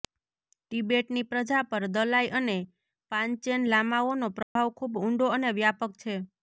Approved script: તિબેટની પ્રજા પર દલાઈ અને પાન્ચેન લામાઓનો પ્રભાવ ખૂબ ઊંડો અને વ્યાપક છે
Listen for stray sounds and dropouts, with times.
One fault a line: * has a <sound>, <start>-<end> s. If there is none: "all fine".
* has a dropout, 4.4-4.6 s